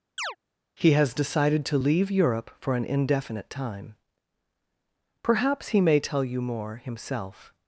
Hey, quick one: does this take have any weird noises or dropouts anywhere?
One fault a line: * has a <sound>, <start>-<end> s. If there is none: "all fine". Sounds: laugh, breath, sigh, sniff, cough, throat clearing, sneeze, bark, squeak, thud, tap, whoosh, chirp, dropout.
* has a chirp, 0.2-0.4 s